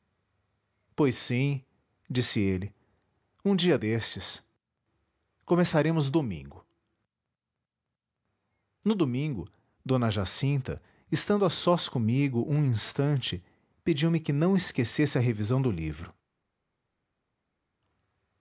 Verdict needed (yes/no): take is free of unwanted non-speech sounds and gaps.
yes